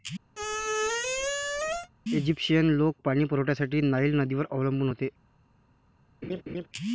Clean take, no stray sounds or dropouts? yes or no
no